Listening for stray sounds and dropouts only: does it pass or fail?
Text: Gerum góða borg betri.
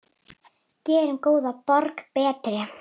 pass